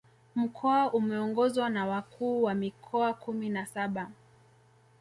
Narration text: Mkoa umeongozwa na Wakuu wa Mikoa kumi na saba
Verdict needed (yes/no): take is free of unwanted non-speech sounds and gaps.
yes